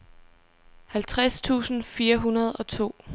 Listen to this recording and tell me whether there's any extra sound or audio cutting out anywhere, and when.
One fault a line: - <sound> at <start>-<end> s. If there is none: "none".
none